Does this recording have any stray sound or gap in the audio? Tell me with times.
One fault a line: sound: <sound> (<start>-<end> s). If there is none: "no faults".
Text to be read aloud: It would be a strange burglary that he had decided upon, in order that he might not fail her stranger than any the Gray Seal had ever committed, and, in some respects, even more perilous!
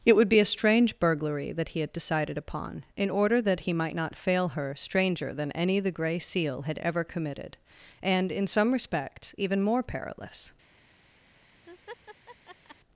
sound: laugh (11.7-12.8 s)